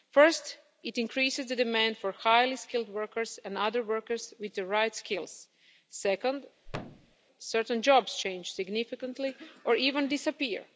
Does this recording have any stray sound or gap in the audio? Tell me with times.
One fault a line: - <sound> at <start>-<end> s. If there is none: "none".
- thud at 6.7-7.2 s